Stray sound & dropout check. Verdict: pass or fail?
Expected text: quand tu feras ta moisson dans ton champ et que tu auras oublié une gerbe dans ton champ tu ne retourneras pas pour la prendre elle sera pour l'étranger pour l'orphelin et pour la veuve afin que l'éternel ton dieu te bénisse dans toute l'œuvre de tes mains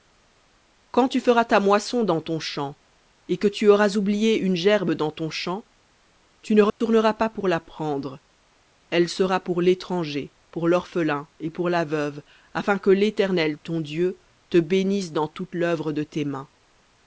fail